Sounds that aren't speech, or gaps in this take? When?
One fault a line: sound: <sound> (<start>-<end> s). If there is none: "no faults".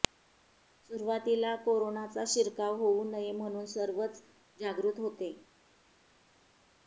no faults